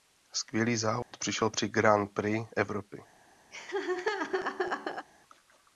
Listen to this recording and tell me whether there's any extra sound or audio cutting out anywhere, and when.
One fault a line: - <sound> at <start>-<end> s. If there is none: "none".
- dropout at 1.0-1.1 s
- laugh at 3.5-5.1 s